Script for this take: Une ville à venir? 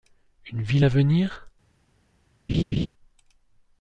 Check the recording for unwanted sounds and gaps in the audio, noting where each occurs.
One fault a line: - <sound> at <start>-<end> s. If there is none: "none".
- laugh at 2.5-2.9 s